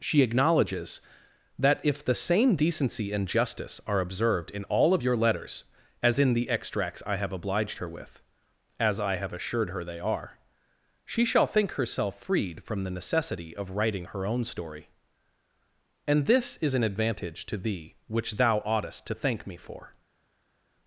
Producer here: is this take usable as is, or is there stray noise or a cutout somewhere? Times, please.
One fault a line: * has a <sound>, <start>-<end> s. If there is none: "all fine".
all fine